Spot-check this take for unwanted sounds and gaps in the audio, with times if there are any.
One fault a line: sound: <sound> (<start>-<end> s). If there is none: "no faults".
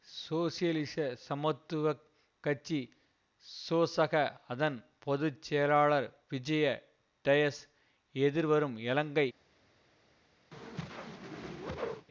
sound: whoosh (10.5-12.1 s)